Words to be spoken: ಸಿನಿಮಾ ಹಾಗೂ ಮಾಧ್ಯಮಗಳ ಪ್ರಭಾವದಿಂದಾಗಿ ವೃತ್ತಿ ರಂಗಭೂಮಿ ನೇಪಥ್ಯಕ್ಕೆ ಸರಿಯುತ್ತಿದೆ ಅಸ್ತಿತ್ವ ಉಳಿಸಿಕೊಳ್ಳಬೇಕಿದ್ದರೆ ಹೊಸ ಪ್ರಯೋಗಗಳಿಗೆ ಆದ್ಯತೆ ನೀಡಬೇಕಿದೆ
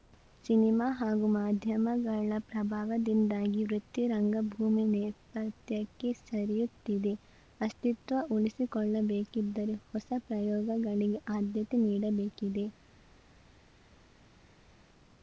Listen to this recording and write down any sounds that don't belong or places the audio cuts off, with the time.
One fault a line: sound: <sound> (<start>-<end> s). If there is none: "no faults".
no faults